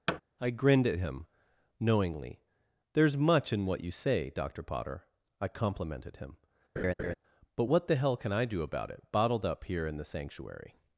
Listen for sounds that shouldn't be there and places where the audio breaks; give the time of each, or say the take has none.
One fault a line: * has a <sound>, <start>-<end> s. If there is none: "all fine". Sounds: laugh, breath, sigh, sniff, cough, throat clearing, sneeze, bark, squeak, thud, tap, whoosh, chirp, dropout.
* has a thud, 0.1-0.2 s
* has a laugh, 6.8-7.1 s